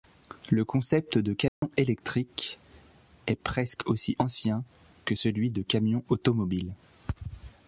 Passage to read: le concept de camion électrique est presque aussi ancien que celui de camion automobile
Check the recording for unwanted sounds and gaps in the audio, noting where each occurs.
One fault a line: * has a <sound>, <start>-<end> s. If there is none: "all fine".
* has a dropout, 1.5-1.6 s